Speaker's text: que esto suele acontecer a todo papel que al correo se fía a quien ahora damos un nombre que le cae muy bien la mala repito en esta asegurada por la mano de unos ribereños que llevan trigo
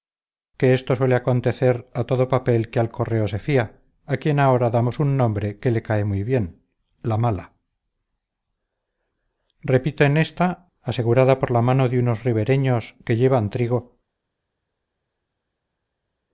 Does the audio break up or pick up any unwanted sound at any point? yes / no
no